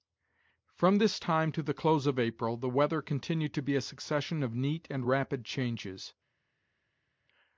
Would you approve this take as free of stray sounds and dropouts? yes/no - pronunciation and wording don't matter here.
yes